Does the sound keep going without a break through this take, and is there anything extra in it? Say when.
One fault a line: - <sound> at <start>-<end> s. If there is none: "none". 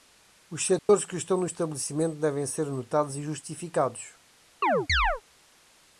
- dropout at 0.8-0.9 s
- chirp at 4.6-5.2 s